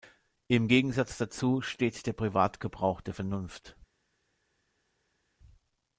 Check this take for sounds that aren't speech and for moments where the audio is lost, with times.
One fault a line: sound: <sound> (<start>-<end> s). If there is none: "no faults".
no faults